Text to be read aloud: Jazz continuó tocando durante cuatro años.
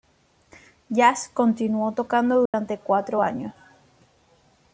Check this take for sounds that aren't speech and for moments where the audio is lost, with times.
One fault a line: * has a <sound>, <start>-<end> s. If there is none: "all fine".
* has a dropout, 2.5-2.5 s